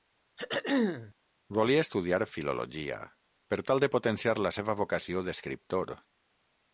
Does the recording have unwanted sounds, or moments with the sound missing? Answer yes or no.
yes